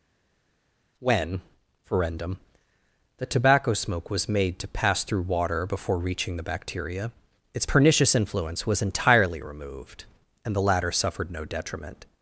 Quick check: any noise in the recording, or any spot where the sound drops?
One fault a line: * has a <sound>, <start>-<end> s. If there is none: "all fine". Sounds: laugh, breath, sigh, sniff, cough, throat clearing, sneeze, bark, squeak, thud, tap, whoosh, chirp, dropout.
all fine